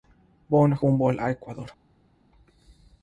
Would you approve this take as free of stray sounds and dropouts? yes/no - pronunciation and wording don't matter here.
yes